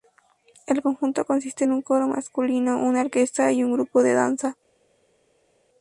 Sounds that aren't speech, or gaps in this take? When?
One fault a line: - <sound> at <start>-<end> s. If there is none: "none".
none